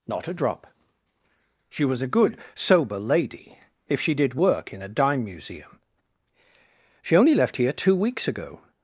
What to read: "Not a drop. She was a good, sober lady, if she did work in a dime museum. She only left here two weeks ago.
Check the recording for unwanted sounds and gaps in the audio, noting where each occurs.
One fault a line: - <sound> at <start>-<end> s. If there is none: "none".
none